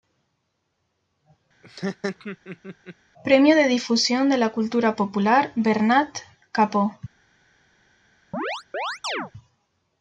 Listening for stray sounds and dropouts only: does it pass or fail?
fail